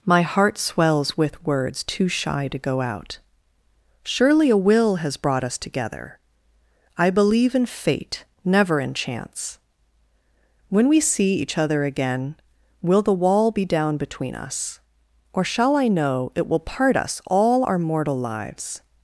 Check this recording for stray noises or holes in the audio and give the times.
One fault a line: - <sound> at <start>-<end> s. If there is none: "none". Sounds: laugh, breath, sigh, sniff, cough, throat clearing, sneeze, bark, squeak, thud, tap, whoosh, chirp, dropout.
none